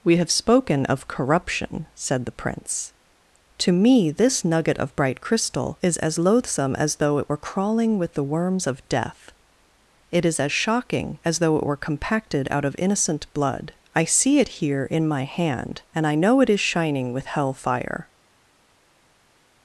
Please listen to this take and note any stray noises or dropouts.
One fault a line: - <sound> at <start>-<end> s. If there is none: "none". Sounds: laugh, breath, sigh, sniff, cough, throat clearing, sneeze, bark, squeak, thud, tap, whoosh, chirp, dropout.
none